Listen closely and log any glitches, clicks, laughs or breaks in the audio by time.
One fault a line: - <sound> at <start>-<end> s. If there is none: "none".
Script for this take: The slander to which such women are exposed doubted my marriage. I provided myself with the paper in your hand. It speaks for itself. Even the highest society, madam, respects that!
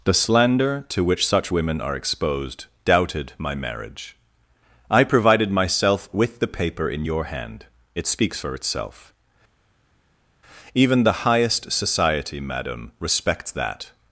none